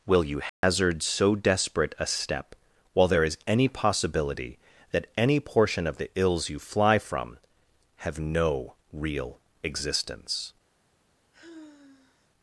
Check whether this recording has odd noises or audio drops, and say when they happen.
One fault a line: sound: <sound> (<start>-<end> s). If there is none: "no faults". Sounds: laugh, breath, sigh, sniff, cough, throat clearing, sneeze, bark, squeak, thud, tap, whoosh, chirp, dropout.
sound: dropout (0.5-0.6 s)
sound: sigh (11.3-12.3 s)